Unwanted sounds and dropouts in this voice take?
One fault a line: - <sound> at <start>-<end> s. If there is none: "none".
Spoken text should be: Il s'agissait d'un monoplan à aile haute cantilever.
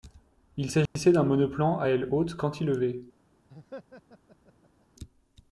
- dropout at 0.9-1.0 s
- laugh at 3.5-4.9 s